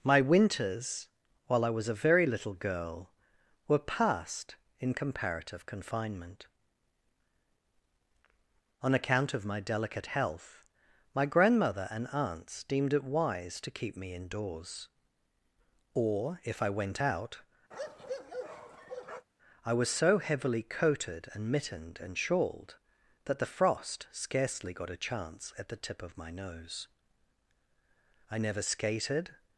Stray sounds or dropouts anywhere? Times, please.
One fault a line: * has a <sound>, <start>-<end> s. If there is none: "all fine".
* has a bark, 17.7-19.3 s